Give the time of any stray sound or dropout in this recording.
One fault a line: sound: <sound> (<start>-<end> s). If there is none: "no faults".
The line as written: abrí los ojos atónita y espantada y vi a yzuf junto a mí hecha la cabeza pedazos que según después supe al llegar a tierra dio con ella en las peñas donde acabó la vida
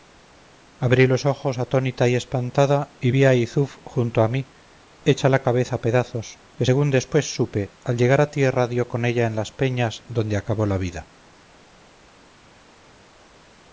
no faults